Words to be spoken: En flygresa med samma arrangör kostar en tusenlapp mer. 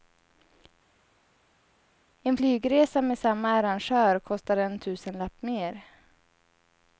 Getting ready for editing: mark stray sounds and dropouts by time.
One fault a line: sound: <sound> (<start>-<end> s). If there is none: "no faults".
no faults